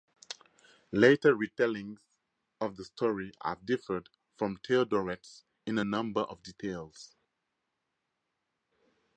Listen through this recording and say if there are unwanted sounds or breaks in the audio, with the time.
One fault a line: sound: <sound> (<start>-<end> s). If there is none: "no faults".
no faults